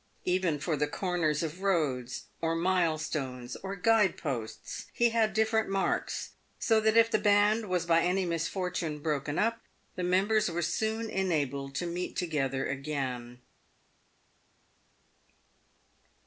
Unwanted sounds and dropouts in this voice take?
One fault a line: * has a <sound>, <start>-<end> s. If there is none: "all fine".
all fine